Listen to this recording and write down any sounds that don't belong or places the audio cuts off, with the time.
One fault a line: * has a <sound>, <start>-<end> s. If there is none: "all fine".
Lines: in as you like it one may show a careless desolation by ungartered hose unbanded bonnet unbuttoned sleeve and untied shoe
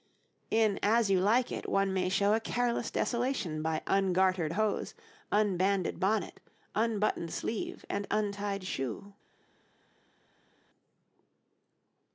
all fine